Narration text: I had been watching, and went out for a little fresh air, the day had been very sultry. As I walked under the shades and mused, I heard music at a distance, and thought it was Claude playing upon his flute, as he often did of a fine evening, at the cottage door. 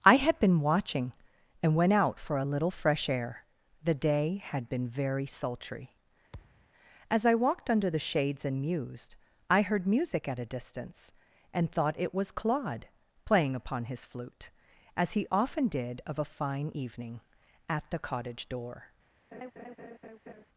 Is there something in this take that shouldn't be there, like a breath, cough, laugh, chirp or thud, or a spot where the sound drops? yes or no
yes